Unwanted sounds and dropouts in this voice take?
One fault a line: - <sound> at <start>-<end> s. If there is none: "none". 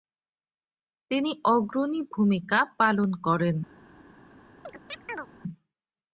- chirp at 4.6-5.3 s